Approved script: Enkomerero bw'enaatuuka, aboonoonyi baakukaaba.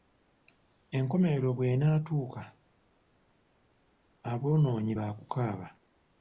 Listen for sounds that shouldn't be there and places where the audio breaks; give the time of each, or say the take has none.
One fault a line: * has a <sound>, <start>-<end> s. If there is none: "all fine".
all fine